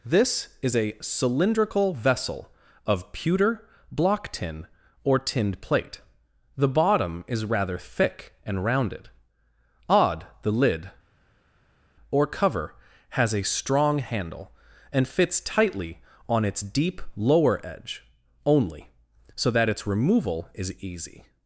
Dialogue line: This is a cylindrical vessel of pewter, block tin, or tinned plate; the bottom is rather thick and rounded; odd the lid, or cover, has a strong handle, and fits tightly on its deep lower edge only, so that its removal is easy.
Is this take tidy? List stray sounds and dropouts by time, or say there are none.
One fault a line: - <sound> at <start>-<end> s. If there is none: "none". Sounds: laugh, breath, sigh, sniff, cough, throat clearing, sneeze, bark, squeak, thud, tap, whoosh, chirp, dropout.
none